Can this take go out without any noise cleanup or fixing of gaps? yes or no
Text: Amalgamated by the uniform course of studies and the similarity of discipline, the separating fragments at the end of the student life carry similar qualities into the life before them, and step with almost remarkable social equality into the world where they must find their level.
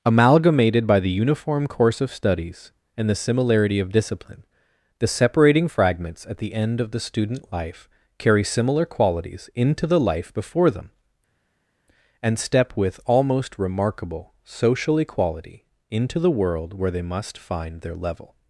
yes